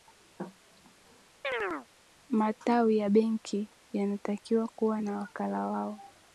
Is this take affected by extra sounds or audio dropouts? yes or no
yes